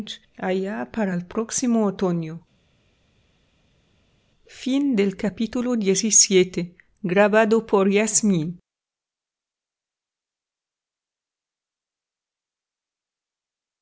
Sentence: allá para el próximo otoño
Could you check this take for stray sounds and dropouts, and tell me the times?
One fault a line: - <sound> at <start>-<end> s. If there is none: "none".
none